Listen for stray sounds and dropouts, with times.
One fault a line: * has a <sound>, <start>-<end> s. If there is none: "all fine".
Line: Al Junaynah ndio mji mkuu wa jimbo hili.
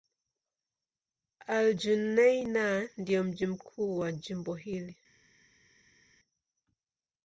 all fine